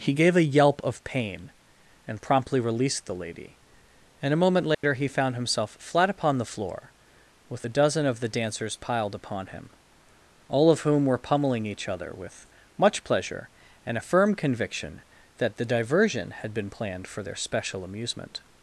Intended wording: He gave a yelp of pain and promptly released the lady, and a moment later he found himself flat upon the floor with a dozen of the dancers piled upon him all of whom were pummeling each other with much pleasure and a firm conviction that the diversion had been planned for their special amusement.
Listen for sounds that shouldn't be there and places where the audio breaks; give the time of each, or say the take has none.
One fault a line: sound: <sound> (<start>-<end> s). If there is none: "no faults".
sound: dropout (4.7-4.8 s)